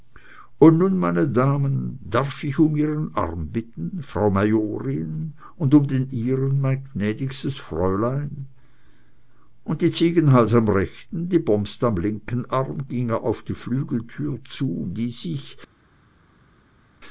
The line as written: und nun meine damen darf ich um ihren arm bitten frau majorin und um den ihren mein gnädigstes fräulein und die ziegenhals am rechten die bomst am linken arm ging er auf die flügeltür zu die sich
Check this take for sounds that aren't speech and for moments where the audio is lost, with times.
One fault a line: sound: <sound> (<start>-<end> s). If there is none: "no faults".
no faults